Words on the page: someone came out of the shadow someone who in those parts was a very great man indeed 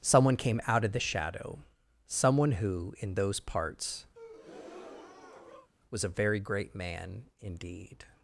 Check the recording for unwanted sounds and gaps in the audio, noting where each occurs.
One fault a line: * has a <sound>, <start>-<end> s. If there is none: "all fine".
* has a breath, 4.1-5.7 s